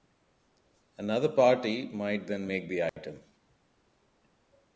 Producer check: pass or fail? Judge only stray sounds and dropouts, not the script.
fail